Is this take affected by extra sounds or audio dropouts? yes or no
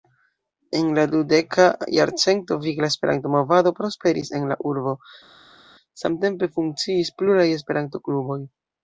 no